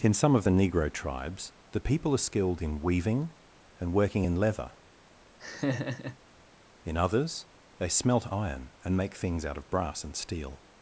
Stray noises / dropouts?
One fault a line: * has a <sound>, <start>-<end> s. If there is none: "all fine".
* has a laugh, 5.4-6.2 s